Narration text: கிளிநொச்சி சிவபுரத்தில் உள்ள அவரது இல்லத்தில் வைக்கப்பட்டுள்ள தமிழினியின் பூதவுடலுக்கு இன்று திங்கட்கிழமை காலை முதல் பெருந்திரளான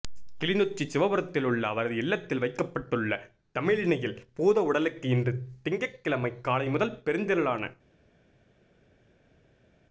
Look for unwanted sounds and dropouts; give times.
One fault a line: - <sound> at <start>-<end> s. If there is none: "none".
none